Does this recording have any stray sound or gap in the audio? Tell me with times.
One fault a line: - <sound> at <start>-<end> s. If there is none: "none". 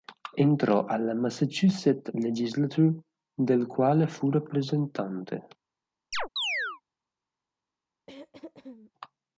- chirp at 6.1-6.8 s
- throat clearing at 8.1-8.9 s